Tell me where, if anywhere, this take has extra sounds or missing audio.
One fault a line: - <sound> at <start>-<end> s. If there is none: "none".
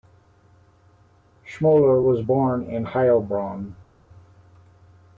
none